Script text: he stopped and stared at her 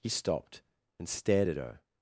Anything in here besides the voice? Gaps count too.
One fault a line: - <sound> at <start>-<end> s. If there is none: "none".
none